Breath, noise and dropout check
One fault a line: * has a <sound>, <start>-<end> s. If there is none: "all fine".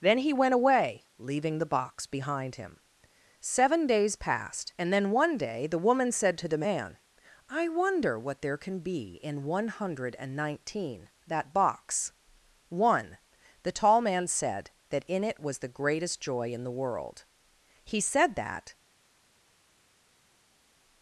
all fine